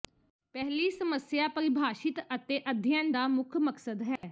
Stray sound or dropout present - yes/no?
yes